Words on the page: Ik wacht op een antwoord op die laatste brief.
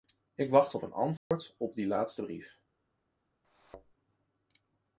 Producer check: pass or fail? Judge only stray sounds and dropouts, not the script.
fail